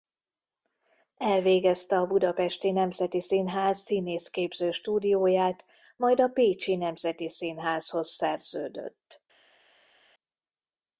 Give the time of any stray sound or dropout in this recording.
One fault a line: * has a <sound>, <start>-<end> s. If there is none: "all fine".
all fine